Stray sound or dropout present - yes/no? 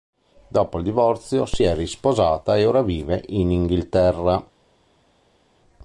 no